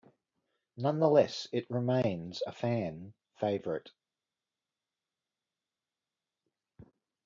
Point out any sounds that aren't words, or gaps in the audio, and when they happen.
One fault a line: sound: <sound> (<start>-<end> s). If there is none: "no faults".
no faults